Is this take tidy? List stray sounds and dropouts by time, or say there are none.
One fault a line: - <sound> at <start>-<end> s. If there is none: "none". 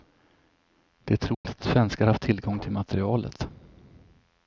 - dropout at 1.3-1.4 s